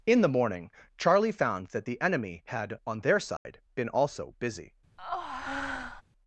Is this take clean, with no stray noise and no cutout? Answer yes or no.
no